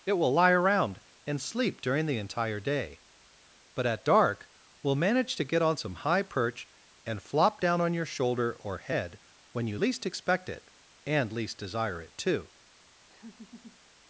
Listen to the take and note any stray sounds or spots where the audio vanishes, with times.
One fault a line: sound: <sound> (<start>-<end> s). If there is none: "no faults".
sound: laugh (13.1-13.8 s)